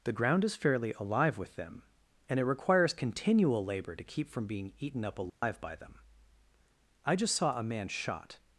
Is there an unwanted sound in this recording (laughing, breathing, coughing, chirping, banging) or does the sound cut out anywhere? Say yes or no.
yes